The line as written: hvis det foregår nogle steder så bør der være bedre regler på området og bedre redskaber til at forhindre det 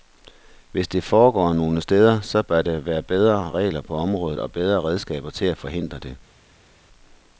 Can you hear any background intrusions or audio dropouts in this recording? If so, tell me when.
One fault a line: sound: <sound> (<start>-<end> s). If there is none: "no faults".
no faults